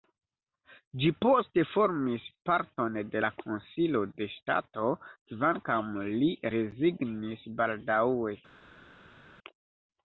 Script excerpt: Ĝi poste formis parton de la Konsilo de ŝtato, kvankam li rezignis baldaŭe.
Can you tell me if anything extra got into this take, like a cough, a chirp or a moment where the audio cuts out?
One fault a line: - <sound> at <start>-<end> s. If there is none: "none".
none